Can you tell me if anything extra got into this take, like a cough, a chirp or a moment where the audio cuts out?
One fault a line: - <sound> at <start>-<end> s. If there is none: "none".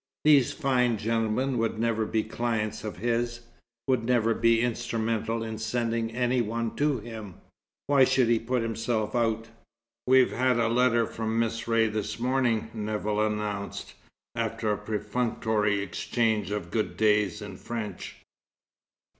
none